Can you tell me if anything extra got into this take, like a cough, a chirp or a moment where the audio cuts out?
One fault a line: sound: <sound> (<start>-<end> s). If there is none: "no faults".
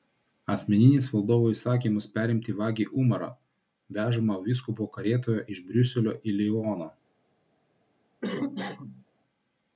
sound: cough (8.2-9.1 s)